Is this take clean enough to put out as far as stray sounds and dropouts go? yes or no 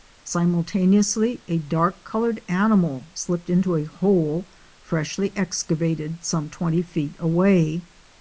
yes